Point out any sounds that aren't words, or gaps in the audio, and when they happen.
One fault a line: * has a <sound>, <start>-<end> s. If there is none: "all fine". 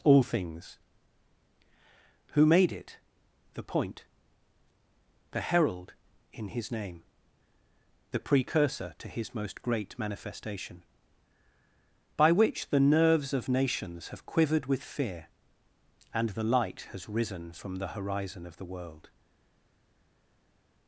all fine